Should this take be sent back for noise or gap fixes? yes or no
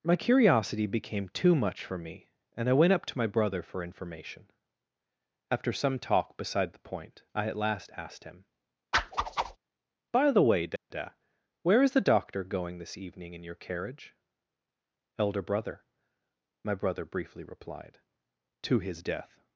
yes